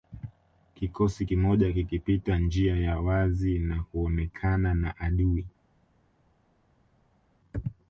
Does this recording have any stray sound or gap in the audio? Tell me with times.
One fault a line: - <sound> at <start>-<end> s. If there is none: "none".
none